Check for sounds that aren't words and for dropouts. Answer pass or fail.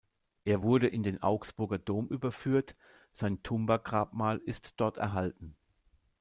pass